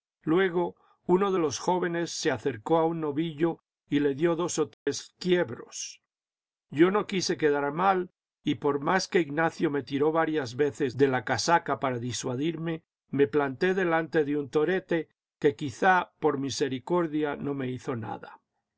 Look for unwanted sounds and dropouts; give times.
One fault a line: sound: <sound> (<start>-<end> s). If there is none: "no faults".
sound: dropout (4.7-4.9 s)